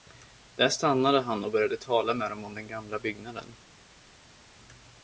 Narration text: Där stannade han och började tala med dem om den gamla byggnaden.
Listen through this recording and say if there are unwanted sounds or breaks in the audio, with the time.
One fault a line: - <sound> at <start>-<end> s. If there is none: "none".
none